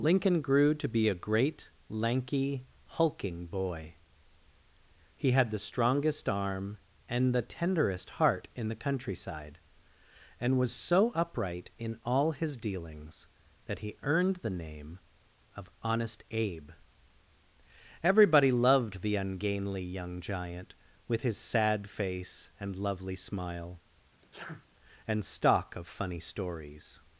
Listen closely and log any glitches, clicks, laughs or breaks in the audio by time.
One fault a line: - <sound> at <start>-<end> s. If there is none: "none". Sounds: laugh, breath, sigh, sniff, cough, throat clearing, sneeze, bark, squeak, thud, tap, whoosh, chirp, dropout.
- sneeze at 24.2-24.7 s